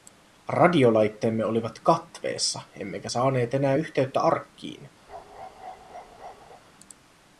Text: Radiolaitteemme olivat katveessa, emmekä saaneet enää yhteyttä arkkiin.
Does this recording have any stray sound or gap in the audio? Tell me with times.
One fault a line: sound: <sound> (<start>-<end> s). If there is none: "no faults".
sound: bark (5.1-6.6 s)